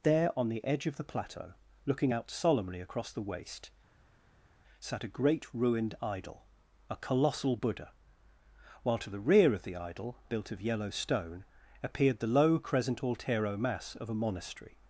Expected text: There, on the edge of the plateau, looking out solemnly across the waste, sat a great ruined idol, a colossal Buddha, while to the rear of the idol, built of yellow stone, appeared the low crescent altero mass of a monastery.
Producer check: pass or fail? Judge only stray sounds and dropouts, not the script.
pass